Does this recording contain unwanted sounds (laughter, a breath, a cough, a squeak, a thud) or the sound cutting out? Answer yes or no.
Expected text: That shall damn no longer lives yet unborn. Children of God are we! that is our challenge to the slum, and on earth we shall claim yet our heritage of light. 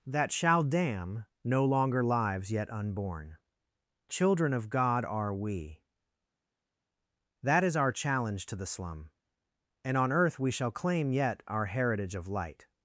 no